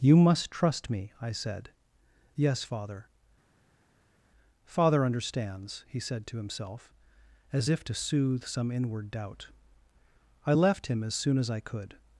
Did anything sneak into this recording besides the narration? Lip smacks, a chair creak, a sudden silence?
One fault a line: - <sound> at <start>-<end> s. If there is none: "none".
none